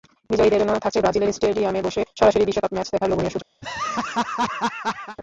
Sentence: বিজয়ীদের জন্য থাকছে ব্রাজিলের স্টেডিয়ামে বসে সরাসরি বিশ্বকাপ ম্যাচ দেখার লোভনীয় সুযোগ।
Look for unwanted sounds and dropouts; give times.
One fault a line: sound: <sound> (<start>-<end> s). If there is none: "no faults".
sound: laugh (3.6-5.2 s)